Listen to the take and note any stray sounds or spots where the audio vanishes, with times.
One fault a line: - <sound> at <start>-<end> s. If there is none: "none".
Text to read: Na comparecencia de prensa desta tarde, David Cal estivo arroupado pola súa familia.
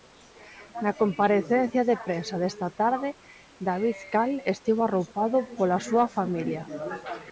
none